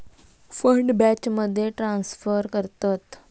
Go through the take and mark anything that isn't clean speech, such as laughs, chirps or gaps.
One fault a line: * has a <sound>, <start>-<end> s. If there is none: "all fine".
all fine